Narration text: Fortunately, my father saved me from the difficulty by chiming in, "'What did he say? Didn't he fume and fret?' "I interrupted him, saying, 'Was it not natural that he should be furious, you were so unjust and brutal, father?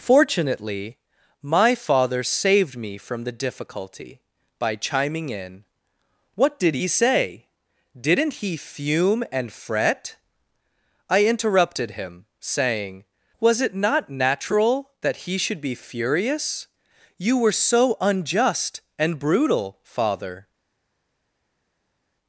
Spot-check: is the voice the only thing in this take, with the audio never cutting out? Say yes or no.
yes